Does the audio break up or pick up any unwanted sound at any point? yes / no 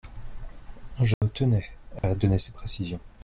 yes